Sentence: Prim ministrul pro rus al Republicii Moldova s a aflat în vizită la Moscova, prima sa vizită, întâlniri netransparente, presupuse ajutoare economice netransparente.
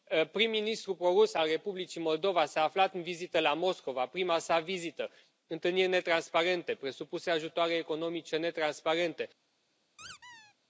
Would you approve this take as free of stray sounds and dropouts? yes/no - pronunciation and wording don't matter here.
no